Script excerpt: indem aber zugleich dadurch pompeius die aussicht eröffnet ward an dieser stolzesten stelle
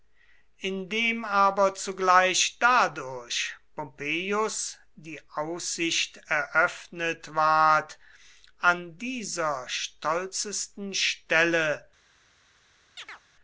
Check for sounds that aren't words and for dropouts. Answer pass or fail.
fail